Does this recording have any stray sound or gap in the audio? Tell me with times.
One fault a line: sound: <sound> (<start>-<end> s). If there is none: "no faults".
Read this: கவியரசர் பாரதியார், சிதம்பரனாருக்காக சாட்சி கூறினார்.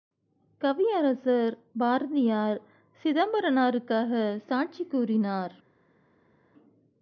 no faults